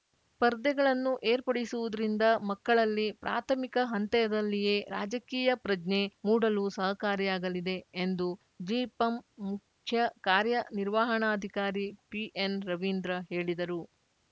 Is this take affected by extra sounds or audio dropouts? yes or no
no